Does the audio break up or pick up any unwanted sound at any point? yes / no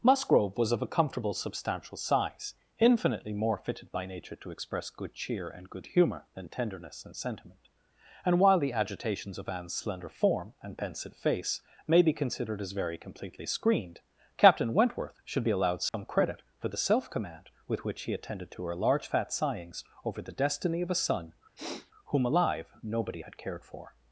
yes